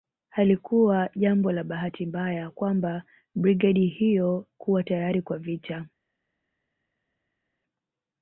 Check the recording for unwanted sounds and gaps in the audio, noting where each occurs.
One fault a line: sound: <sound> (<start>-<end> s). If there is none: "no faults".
no faults